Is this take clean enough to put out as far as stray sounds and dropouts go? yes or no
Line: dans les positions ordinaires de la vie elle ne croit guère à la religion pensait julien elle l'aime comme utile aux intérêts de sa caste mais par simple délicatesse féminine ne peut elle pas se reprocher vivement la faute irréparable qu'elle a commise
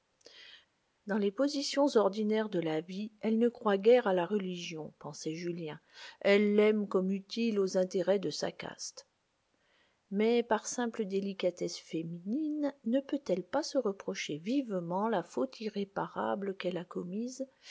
yes